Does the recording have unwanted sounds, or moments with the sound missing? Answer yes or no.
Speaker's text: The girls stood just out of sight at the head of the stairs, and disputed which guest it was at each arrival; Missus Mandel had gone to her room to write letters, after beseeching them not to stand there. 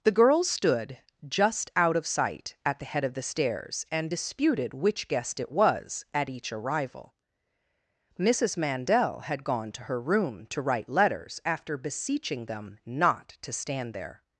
no